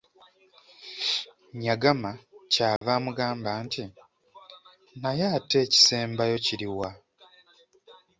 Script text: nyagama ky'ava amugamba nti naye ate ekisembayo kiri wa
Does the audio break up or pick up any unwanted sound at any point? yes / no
yes